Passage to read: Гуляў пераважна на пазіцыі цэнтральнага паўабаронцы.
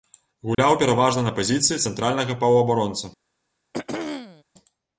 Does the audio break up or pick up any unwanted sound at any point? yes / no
yes